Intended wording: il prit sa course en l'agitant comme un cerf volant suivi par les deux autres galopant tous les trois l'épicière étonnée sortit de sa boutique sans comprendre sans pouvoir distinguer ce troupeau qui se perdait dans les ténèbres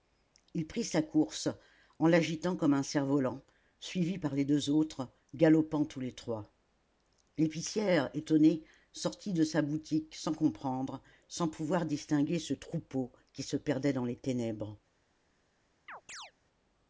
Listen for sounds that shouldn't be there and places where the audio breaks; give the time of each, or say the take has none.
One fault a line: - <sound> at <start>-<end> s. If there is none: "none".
- chirp at 15.9-16.3 s